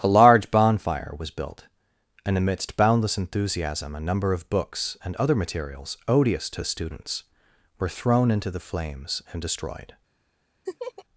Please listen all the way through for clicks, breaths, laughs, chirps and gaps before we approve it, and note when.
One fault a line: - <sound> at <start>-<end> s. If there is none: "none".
- laugh at 10.7-11.1 s